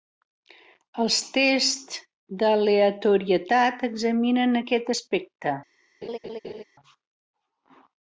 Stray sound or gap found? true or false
true